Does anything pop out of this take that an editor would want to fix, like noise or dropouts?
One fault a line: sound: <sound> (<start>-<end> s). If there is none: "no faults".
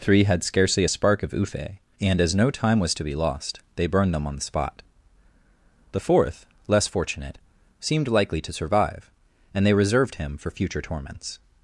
no faults